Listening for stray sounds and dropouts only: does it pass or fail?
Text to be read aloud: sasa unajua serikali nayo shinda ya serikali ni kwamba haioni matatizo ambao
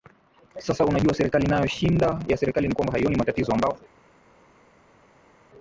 pass